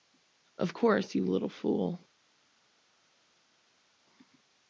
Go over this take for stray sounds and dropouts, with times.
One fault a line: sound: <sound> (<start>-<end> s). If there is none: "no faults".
no faults